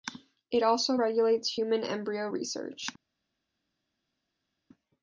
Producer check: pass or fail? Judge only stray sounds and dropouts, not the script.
pass